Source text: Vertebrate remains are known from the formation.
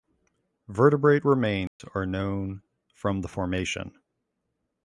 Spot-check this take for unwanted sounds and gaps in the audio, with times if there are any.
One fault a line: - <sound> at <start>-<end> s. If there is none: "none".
- dropout at 1.7-1.8 s